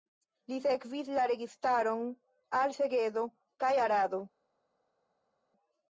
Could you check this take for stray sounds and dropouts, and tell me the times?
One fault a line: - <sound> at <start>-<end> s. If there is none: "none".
none